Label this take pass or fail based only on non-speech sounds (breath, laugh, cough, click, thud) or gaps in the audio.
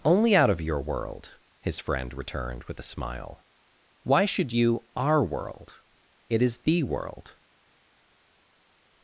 pass